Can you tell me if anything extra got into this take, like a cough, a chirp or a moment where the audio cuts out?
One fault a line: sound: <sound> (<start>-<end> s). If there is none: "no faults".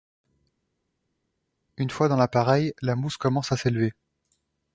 no faults